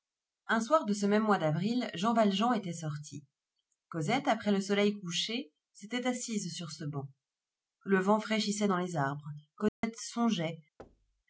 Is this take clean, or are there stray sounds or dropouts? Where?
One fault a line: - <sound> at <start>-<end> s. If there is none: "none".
- dropout at 9.7-9.8 s
- thud at 10.8-11.2 s